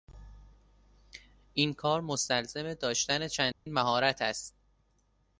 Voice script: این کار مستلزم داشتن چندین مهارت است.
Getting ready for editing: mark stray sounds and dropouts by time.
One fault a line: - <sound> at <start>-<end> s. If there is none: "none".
- dropout at 3.5-3.7 s